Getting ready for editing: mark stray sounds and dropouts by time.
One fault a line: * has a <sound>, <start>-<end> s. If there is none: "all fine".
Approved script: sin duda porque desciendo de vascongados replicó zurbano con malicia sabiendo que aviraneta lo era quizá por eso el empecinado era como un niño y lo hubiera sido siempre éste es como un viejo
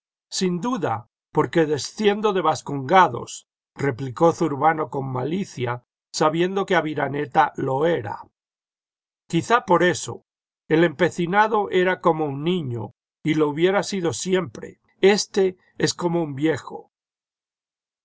all fine